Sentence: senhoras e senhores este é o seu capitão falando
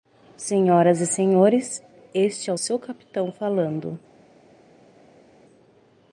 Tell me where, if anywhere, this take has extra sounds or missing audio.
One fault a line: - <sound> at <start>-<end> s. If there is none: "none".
none